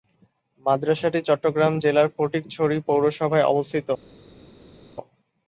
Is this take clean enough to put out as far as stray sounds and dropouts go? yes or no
yes